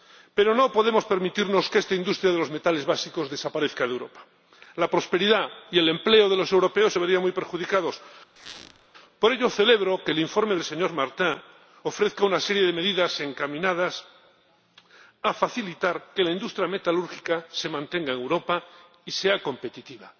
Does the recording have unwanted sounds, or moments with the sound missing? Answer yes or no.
yes